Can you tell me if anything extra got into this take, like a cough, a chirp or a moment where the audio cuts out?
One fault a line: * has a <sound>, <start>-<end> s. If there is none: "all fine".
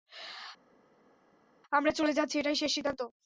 all fine